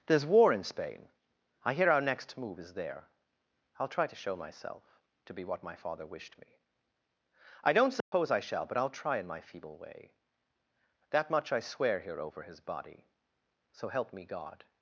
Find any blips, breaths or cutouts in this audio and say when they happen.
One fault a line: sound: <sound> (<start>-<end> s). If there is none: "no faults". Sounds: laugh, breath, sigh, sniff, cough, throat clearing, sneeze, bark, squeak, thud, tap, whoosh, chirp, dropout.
sound: dropout (8.0-8.1 s)